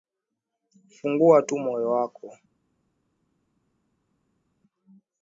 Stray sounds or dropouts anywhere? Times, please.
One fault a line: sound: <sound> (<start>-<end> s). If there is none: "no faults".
no faults